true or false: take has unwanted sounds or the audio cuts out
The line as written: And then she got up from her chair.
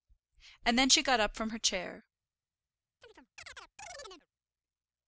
true